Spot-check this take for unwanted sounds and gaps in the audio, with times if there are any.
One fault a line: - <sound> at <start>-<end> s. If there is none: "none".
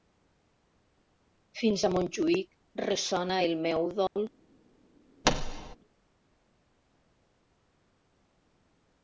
- dropout at 4.1-4.2 s
- thud at 5.2-5.8 s